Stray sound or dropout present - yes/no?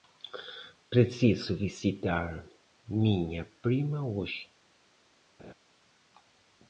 yes